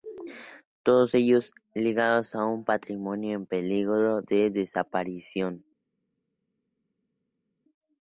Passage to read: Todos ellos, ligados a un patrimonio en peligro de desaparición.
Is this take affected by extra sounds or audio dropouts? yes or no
no